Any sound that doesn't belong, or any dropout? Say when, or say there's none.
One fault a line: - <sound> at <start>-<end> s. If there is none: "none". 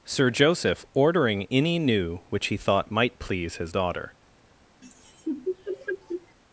- laugh at 4.8-6.4 s